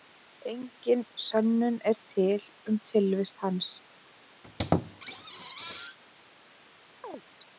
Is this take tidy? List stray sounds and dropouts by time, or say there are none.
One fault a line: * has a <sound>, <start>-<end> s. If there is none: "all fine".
* has a squeak, 4.4-6.0 s
* has a chirp, 7.0-7.2 s